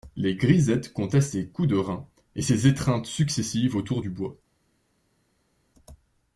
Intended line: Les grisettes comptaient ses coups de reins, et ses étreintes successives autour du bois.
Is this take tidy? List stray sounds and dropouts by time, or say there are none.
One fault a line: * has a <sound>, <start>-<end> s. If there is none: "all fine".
all fine